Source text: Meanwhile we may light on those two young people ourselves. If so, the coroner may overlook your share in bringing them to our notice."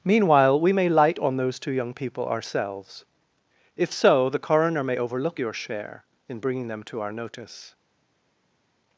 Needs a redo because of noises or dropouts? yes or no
no